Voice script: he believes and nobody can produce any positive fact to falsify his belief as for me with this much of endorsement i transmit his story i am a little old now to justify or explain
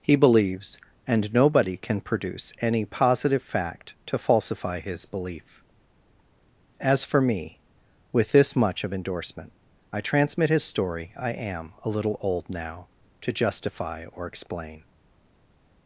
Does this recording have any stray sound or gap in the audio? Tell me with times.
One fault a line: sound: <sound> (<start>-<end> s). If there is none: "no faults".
no faults